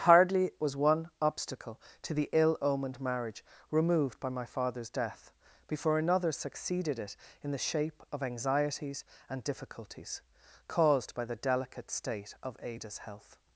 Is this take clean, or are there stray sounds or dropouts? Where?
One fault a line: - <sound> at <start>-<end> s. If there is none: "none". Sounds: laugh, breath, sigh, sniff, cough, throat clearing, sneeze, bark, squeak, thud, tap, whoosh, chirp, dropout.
none